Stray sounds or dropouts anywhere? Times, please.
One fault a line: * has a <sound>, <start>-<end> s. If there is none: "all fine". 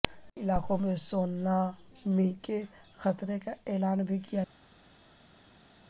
all fine